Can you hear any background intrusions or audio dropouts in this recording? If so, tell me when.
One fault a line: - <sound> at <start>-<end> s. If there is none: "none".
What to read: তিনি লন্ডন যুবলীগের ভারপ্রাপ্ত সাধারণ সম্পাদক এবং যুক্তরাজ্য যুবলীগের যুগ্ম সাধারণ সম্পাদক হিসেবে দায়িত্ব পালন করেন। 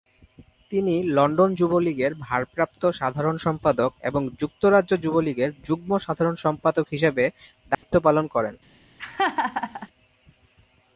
- dropout at 7.7-7.8 s
- laugh at 9.0-9.9 s